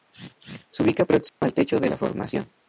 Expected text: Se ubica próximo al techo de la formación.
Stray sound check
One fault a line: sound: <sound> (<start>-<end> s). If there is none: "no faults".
sound: dropout (1.3-1.4 s)